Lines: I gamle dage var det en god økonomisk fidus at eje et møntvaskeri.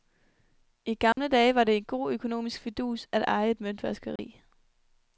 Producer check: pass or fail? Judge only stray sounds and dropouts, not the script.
fail